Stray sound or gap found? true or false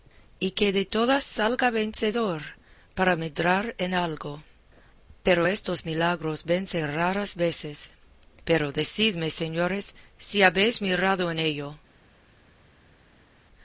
false